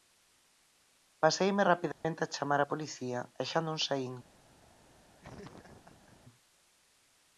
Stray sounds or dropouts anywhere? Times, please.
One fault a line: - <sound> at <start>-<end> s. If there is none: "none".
- dropout at 1.9-2.0 s
- laugh at 5.2-6.2 s